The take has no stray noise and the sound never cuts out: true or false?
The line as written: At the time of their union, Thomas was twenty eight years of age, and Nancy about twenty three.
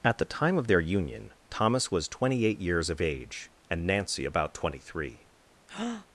false